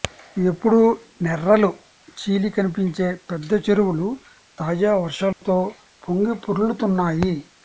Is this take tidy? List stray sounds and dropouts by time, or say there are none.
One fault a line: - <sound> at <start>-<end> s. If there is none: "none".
- dropout at 5.3-5.4 s